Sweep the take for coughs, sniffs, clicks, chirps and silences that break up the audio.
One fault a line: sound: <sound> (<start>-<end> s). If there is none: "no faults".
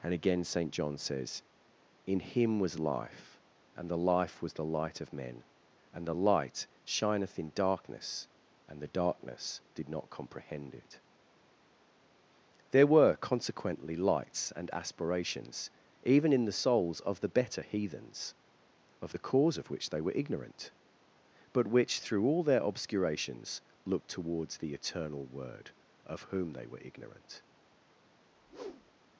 sound: whoosh (28.3-29.1 s)